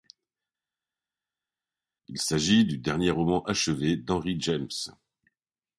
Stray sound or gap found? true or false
false